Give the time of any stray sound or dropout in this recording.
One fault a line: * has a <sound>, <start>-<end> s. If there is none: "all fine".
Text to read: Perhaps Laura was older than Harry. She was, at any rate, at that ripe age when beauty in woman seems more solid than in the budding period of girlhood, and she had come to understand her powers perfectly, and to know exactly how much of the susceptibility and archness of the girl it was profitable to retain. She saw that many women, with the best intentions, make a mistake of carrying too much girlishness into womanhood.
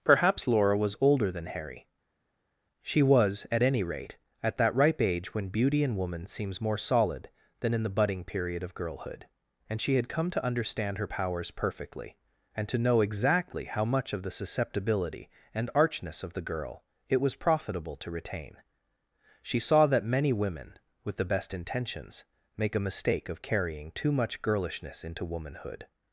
all fine